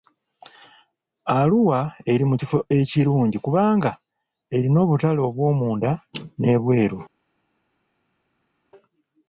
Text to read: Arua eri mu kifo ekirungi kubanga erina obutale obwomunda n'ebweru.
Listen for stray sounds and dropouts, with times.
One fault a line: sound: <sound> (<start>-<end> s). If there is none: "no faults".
no faults